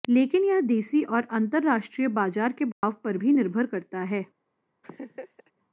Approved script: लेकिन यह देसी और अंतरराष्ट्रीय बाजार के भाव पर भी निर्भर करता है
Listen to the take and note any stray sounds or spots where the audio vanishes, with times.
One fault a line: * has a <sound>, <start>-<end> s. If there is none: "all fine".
* has a dropout, 2.7-2.8 s
* has a laugh, 4.8-5.5 s